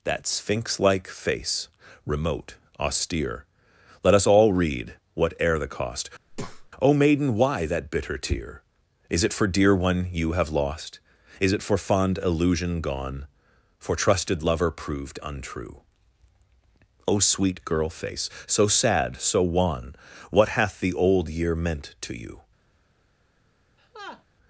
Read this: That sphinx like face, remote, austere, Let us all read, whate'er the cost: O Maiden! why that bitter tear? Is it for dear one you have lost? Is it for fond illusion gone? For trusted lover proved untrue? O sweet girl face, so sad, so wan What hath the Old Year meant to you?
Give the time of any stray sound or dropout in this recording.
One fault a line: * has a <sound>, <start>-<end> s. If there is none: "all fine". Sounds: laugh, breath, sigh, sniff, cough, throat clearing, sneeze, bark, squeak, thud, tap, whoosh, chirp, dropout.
* has a breath, 6.3-6.7 s
* has a laugh, 23.8-24.2 s